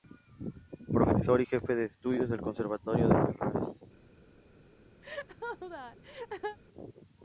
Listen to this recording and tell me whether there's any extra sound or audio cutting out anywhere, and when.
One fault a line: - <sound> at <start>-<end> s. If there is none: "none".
- laugh at 5.0-6.6 s